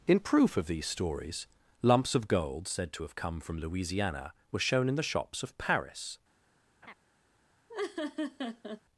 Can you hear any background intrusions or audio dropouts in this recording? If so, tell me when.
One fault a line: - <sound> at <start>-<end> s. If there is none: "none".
- laugh at 6.8-6.9 s
- laugh at 7.7-8.8 s